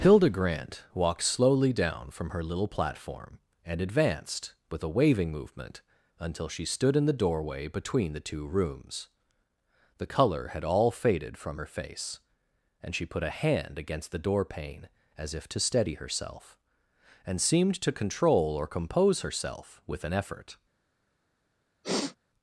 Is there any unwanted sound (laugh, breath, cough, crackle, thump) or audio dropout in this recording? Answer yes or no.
yes